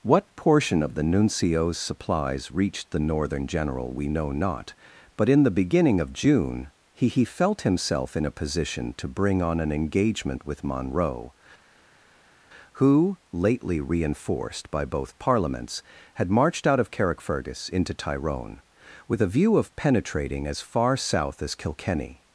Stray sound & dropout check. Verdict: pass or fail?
pass